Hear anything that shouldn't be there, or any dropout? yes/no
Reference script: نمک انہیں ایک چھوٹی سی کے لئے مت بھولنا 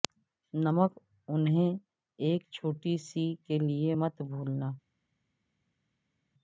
no